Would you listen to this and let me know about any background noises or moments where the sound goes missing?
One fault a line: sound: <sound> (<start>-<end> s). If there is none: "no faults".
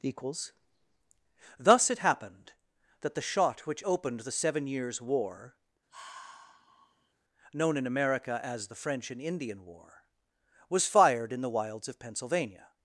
sound: sigh (5.9-7.1 s)